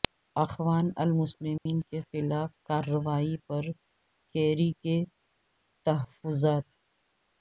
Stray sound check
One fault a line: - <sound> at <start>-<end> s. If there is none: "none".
- dropout at 1.6-1.7 s